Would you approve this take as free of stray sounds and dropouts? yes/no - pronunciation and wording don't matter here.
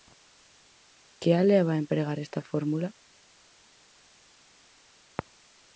yes